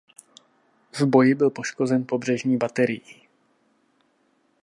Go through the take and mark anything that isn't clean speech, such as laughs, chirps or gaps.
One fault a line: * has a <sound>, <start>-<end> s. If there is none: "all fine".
all fine